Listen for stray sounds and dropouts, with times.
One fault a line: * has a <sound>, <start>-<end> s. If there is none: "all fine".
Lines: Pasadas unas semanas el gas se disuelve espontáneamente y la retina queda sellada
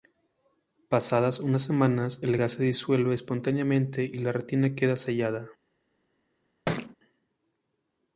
* has a thud, 6.7-7.0 s